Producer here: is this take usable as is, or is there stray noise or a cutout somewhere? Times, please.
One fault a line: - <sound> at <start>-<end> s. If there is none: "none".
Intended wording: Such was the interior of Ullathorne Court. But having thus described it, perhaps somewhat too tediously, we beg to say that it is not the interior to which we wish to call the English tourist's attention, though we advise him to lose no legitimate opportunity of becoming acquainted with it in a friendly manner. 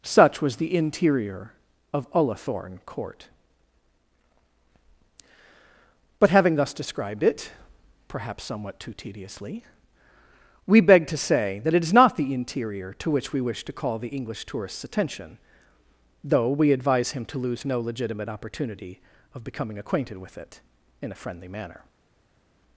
none